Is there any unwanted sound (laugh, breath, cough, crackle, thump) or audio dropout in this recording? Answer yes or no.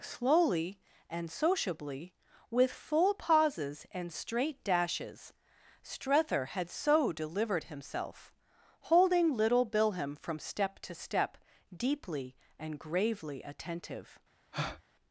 yes